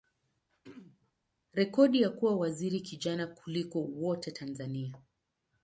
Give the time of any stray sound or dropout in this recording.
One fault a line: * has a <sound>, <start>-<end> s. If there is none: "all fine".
* has a throat clearing, 0.5-1.1 s